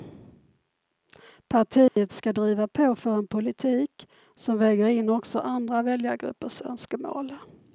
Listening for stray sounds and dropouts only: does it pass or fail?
fail